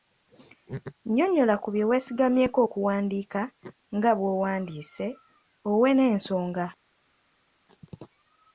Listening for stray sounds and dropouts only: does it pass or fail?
pass